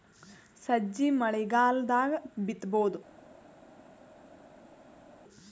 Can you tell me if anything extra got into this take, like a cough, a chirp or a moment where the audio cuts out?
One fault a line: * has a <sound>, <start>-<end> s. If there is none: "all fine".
all fine